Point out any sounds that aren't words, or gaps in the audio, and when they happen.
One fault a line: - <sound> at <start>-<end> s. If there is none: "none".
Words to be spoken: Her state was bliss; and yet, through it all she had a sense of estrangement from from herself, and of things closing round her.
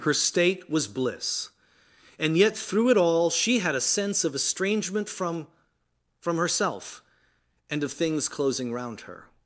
none